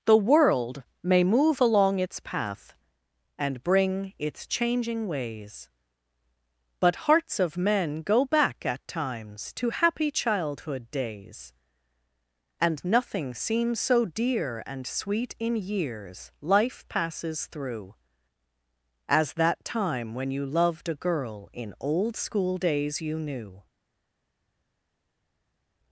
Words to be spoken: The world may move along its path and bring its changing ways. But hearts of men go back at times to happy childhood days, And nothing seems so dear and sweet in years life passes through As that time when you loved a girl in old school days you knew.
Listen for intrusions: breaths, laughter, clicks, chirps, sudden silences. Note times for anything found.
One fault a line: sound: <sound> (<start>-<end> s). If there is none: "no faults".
no faults